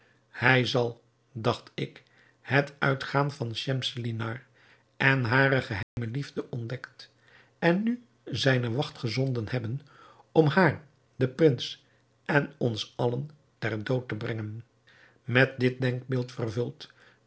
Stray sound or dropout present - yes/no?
yes